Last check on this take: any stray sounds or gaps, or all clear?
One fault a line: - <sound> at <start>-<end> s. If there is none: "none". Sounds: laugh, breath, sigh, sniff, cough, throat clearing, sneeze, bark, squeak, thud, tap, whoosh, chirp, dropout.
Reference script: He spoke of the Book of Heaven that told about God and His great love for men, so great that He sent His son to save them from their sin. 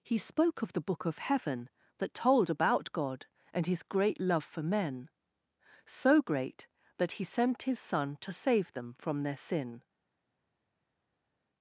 none